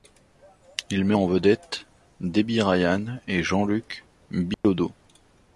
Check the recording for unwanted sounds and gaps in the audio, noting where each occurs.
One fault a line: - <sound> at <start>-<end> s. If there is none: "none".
- dropout at 4.5-4.6 s